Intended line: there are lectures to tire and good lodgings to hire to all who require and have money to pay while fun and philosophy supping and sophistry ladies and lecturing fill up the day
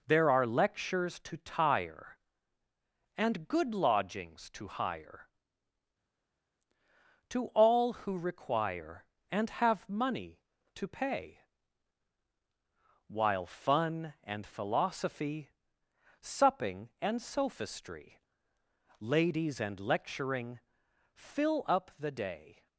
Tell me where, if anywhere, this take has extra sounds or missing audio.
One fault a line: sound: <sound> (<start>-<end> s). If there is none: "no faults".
no faults